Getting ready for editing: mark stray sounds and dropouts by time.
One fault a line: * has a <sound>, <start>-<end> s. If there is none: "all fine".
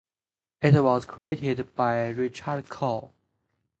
* has a dropout, 1.2-1.3 s